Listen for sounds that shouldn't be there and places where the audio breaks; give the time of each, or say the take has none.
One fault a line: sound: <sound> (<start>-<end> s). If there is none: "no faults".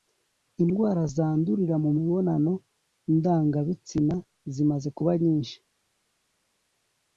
no faults